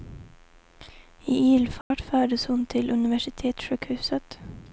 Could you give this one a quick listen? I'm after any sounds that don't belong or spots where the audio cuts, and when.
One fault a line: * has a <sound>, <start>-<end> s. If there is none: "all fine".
* has a dropout, 1.8-1.9 s